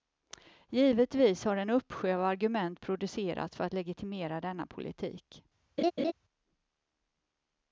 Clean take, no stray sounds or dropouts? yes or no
no